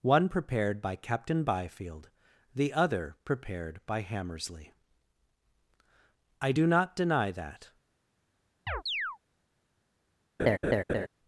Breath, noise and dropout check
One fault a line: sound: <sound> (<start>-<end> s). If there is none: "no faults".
sound: chirp (8.7-9.2 s)
sound: laugh (10.4-11.1 s)